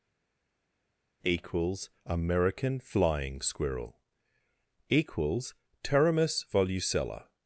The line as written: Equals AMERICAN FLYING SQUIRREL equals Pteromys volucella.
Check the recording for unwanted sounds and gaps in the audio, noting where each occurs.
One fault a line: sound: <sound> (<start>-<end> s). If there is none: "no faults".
no faults